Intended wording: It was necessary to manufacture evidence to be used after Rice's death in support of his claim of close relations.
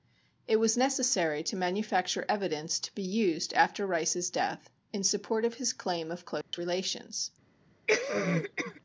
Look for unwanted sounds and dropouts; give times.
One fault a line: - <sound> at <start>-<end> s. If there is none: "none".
- dropout at 6.4-6.5 s
- cough at 7.9-8.8 s